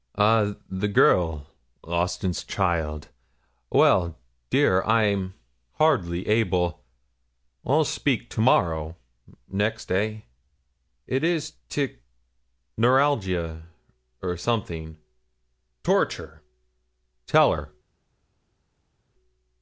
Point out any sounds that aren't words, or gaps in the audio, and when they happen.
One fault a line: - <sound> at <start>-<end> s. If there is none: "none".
none